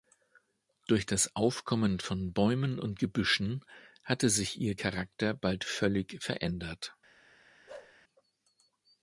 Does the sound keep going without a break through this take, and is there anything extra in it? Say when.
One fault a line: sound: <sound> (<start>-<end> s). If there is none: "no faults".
sound: bark (7.7-8.0 s)